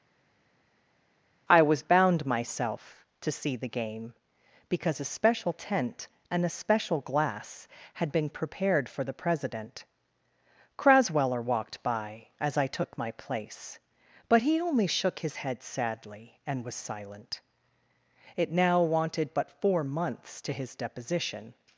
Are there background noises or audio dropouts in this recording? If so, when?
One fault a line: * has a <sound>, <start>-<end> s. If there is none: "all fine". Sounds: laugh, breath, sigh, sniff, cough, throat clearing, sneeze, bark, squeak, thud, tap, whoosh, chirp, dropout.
all fine